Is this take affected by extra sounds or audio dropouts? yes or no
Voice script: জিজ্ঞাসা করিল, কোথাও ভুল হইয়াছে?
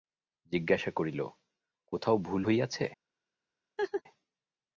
yes